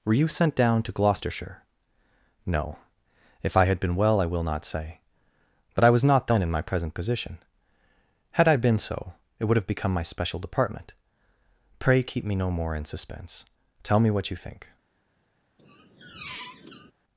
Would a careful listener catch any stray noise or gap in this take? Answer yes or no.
yes